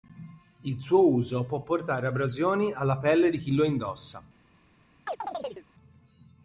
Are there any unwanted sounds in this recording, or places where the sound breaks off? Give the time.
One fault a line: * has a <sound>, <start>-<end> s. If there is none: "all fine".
* has a chirp, 5.1-5.7 s